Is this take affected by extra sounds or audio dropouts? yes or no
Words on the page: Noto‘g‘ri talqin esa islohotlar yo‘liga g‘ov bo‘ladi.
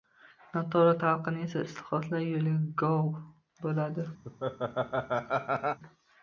yes